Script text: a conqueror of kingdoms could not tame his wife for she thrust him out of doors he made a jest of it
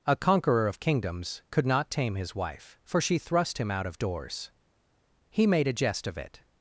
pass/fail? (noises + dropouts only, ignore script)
pass